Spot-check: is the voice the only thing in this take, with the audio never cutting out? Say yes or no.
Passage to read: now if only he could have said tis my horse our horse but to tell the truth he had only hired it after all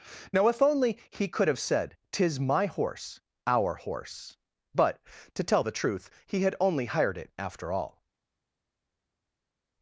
yes